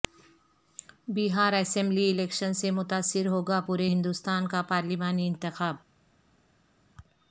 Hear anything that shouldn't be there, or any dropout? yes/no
no